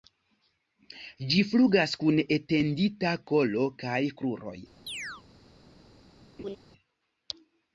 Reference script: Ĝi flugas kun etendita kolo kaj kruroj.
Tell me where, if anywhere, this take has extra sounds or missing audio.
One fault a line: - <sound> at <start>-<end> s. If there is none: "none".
- chirp at 4.9-5.2 s
- laugh at 6.4-6.6 s